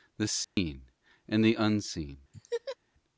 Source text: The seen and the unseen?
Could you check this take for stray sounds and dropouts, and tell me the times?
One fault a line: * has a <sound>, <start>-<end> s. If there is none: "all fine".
* has a dropout, 0.4-0.6 s
* has a laugh, 2.3-2.8 s